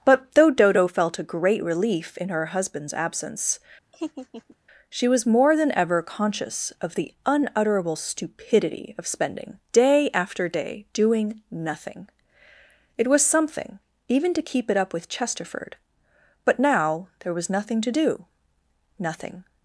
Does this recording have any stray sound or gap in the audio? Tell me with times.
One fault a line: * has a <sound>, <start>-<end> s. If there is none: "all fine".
* has a laugh, 3.9-4.6 s